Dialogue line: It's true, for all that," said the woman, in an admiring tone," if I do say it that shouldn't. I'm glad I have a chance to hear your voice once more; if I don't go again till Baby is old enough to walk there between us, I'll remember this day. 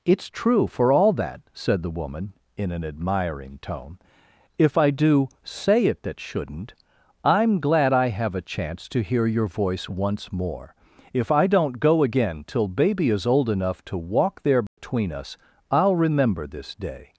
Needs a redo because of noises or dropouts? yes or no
yes